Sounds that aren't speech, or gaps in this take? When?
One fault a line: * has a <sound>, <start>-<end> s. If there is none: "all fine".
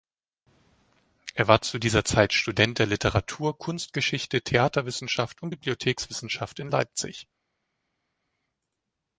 all fine